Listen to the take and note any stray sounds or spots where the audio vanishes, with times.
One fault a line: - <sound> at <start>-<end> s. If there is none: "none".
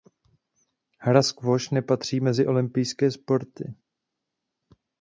none